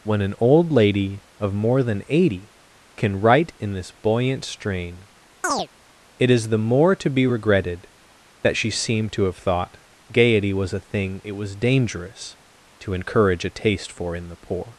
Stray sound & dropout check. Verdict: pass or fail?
fail